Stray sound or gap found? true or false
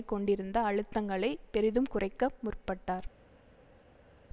false